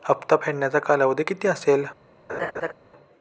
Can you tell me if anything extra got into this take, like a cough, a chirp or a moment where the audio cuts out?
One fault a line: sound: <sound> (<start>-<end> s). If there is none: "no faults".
sound: laugh (2.3-2.7 s)